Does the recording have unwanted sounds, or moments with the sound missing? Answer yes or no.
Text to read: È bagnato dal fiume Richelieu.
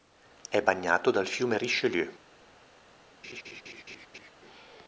yes